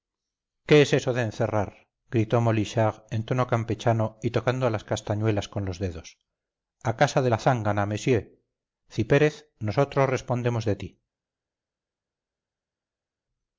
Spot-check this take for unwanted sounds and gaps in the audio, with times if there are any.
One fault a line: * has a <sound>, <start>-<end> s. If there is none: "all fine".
all fine